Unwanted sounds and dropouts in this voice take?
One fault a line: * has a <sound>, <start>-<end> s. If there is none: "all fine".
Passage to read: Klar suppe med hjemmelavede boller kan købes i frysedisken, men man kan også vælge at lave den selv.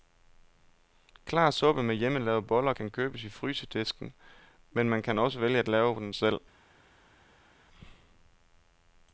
all fine